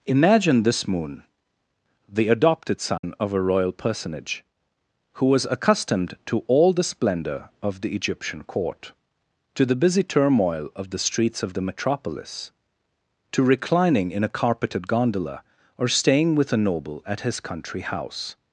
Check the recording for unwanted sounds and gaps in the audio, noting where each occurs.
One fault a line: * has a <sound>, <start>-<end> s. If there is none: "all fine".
* has a dropout, 3.0-3.0 s